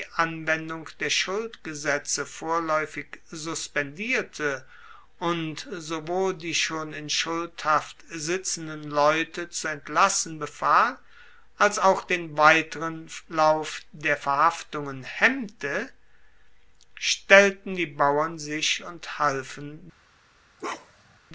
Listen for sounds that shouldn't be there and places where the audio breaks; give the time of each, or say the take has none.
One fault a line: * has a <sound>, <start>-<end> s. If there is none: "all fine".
* has a bark, 20.6-21.2 s